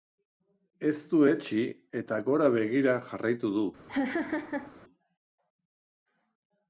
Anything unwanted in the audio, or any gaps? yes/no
yes